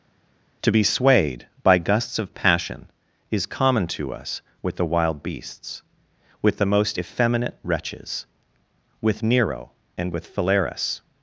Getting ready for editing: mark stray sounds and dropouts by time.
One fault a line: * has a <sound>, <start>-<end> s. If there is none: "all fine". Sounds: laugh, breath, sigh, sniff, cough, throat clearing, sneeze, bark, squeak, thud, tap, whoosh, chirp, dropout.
all fine